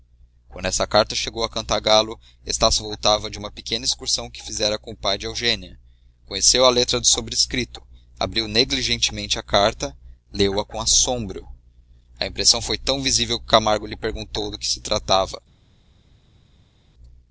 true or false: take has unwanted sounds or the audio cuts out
false